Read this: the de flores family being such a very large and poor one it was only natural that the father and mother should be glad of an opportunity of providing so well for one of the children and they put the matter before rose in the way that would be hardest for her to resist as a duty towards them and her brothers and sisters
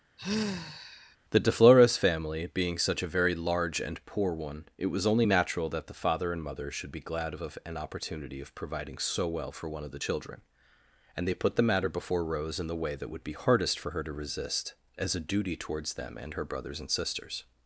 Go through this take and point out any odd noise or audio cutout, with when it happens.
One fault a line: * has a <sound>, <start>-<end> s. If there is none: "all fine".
* has a sigh, 0.2-1.2 s